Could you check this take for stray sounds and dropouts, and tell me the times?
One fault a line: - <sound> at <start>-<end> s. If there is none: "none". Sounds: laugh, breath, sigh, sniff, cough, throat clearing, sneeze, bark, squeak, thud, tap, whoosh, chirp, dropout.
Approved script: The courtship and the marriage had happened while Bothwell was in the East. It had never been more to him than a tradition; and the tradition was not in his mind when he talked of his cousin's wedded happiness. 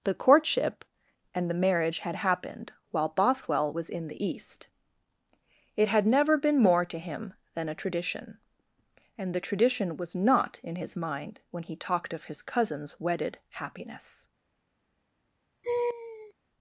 - laugh at 15.6-16.3 s